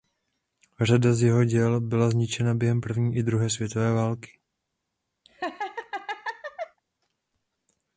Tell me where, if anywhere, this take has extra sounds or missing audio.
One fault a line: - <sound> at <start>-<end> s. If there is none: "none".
- laugh at 5.2-6.8 s